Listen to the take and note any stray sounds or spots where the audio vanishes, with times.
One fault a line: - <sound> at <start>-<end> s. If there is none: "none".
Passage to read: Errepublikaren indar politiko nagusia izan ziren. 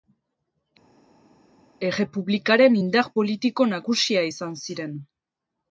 none